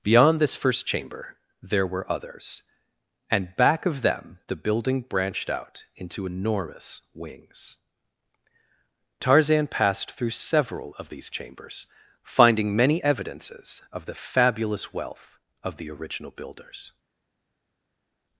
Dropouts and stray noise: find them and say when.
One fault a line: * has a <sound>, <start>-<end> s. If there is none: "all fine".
all fine